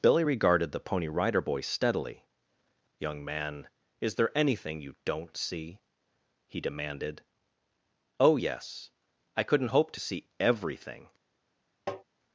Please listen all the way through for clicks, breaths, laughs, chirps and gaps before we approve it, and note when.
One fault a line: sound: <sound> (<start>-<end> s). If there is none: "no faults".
sound: tap (11.9-12.0 s)